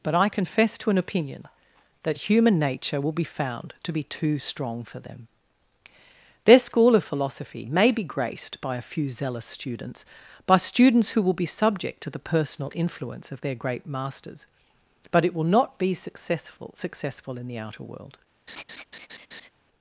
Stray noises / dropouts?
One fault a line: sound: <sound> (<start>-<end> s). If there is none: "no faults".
sound: laugh (18.5-19.5 s)